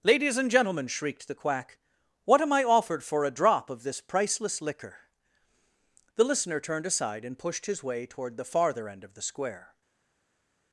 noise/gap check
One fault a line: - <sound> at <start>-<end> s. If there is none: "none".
none